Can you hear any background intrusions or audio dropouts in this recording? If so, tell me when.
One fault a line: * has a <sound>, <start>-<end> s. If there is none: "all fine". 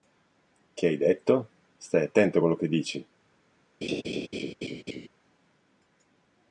* has a laugh, 3.8-5.1 s